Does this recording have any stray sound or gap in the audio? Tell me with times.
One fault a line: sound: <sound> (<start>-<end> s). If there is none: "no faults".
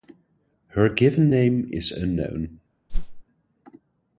sound: whoosh (2.9-3.2 s)